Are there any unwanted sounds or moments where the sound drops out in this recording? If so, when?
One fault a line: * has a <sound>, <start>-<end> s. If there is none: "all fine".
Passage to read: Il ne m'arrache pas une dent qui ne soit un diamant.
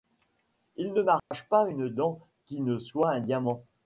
* has a dropout, 1.2-1.3 s